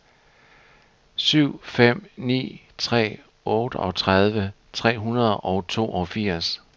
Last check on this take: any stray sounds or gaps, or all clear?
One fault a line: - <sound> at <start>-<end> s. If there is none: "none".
none